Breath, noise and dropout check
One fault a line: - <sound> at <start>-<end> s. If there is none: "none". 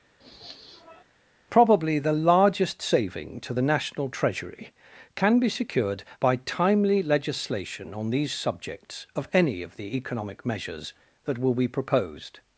- sniff at 0.2-1.0 s